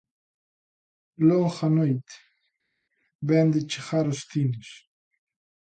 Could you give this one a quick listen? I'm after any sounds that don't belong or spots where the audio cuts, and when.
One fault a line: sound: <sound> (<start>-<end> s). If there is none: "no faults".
no faults